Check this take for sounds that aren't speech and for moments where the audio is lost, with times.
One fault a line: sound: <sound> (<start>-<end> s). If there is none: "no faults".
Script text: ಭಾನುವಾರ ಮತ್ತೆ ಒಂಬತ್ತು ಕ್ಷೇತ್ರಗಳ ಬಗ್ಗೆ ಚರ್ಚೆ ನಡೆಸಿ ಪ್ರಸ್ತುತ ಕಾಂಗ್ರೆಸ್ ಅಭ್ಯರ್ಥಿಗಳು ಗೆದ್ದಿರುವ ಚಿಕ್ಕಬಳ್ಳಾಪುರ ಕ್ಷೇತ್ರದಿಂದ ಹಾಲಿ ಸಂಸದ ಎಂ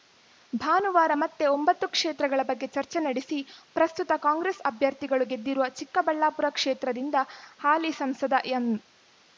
no faults